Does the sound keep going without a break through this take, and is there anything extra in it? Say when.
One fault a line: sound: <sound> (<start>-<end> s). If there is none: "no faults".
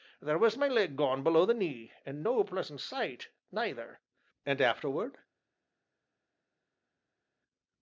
no faults